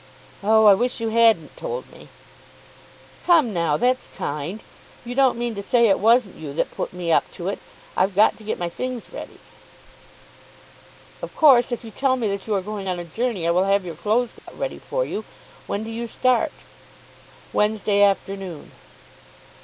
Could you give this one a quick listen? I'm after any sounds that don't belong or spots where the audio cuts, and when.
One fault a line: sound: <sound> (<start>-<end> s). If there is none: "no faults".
sound: dropout (14.4-14.5 s)